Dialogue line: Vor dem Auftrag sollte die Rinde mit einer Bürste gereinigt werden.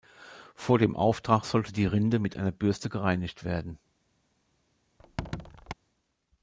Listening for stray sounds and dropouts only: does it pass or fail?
fail